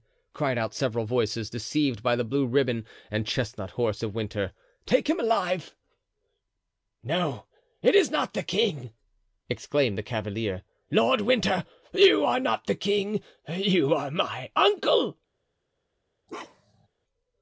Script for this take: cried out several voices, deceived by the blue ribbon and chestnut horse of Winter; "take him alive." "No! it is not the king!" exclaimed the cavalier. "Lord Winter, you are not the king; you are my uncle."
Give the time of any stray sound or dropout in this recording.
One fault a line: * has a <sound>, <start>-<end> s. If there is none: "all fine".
* has a bark, 16.3-16.9 s